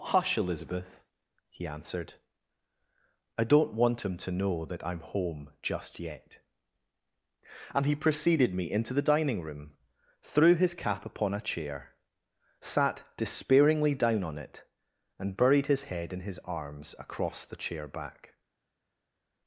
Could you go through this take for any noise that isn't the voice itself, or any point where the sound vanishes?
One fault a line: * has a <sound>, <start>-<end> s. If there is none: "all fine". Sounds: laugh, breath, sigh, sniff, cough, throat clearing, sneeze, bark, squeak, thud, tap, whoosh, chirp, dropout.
all fine